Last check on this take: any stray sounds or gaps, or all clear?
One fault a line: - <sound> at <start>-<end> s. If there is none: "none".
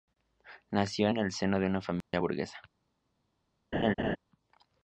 - dropout at 2.0-2.1 s
- laugh at 3.7-4.2 s